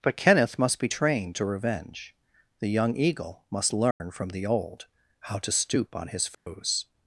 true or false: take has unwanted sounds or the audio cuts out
true